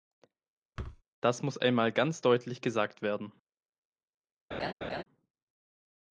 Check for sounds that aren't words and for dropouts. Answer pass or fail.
fail